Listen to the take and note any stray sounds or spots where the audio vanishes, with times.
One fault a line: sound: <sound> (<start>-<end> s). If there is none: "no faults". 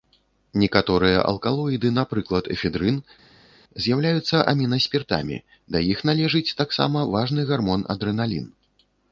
no faults